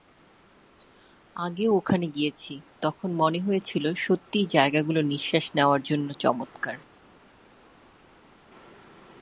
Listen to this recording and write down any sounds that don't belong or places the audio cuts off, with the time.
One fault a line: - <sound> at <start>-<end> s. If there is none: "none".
none